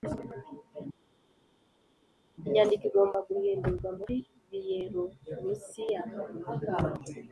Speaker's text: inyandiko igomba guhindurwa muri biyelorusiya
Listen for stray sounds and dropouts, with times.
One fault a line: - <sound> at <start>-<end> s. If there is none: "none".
none